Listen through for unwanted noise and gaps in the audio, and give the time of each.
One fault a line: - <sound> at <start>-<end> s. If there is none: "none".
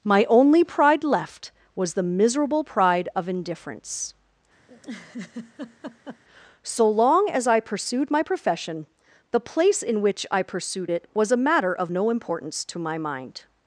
- laugh at 4.7-6.2 s